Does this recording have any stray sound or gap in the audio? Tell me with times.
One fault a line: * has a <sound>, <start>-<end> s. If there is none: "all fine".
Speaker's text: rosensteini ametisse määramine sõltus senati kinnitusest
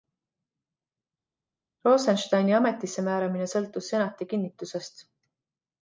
all fine